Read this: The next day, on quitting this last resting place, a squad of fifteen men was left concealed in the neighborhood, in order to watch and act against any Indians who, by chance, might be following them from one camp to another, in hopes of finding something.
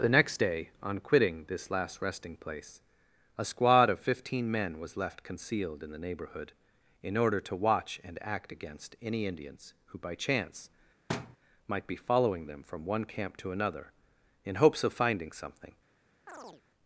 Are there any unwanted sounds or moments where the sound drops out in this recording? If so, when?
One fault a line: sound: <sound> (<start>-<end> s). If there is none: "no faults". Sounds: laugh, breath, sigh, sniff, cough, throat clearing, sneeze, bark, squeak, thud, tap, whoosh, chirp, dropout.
sound: thud (11.1-11.4 s)
sound: chirp (16.3-16.6 s)